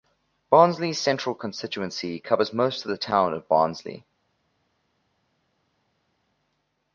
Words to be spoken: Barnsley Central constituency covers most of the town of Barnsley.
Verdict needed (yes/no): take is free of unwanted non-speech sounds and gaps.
yes